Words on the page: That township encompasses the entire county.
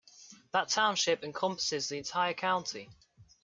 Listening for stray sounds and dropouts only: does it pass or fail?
pass